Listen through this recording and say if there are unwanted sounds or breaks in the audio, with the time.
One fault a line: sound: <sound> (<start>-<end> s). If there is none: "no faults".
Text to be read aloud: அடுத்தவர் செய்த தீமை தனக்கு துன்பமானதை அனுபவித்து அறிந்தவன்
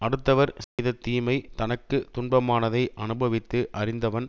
sound: dropout (0.6-0.8 s)